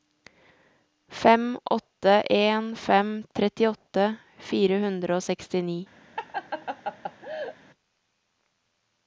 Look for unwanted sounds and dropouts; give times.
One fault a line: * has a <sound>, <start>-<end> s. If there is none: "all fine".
* has a laugh, 6.2-7.6 s